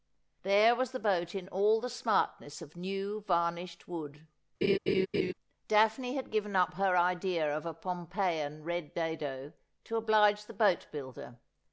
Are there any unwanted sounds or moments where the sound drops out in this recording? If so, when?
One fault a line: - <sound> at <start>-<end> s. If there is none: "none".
- laugh at 4.6-5.3 s